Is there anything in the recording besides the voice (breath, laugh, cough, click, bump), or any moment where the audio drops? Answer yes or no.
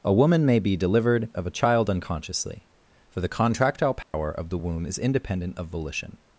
yes